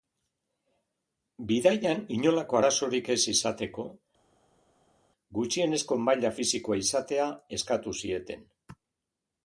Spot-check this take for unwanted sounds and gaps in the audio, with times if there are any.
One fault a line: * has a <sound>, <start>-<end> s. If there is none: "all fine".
all fine